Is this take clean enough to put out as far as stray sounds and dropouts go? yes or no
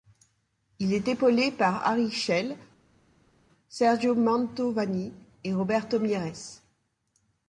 yes